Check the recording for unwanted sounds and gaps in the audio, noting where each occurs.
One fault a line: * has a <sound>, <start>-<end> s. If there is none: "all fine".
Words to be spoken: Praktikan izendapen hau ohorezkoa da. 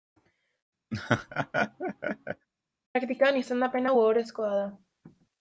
* has a laugh, 0.9-2.5 s